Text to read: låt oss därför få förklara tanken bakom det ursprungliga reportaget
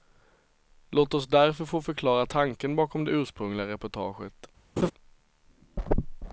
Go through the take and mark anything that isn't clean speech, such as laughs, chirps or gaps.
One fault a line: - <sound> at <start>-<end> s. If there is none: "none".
- laugh at 4.8-4.9 s